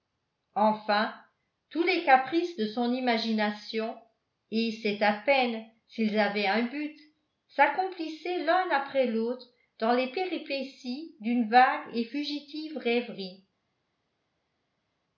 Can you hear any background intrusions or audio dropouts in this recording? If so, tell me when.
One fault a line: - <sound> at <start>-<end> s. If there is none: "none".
none